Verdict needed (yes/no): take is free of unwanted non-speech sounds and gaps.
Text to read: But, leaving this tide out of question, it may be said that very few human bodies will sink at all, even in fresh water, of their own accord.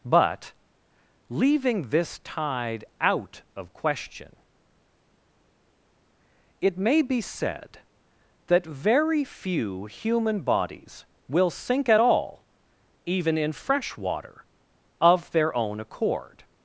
yes